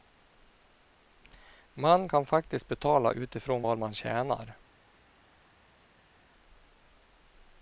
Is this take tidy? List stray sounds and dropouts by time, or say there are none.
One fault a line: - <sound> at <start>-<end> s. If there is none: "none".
none